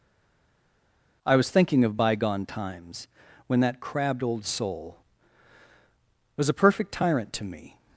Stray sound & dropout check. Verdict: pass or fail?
pass